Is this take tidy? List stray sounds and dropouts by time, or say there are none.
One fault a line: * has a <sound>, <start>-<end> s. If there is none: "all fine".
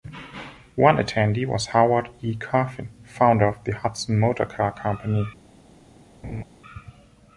* has a laugh, 6.2-6.4 s